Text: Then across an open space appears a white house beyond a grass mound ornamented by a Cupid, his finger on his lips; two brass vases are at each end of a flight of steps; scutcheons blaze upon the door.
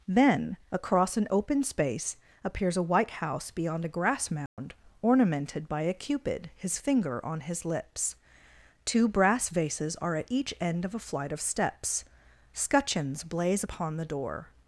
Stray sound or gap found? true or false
true